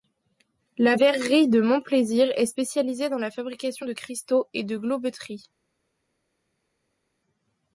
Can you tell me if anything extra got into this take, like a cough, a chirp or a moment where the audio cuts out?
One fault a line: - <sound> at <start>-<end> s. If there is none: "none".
none